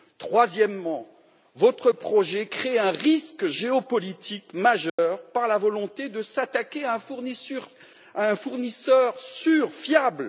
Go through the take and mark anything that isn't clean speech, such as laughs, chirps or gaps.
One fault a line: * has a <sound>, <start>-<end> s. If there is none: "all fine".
* has a dropout, 4.9-5.0 s